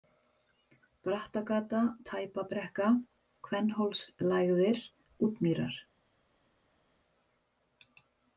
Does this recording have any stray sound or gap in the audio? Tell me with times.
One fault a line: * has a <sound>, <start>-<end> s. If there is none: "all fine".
all fine